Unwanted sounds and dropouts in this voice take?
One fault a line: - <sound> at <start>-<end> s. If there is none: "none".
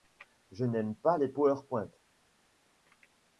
none